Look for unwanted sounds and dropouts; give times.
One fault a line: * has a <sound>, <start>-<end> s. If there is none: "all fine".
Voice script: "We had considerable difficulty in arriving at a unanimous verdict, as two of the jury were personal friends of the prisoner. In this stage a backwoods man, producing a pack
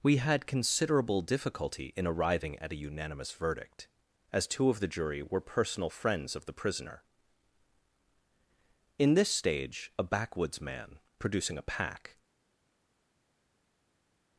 all fine